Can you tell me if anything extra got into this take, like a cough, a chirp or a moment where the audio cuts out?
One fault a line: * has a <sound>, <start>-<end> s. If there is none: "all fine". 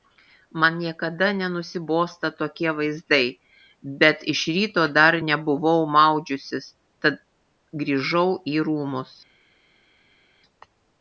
all fine